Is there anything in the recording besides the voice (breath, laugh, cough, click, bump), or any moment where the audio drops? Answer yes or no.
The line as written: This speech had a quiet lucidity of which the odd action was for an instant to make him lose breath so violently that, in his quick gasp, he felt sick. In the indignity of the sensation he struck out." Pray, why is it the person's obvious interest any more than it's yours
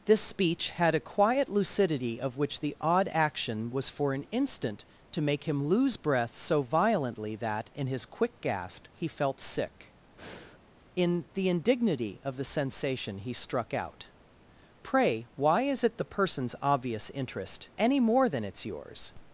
yes